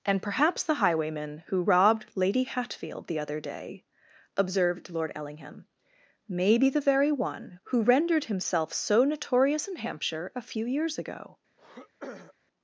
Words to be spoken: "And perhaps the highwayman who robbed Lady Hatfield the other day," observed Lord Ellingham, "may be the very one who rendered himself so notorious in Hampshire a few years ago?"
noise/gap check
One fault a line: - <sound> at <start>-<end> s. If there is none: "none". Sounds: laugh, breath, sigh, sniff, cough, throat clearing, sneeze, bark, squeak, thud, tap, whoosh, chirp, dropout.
- throat clearing at 11.6-12.3 s